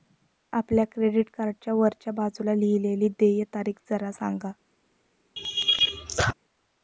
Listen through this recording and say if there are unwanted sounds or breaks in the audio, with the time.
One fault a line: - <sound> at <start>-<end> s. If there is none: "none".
- laugh at 5.4-6.3 s